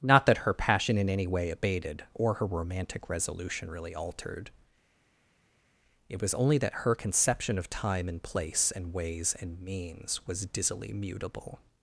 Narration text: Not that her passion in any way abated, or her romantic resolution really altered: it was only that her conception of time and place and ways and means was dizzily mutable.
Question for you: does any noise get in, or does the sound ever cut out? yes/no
no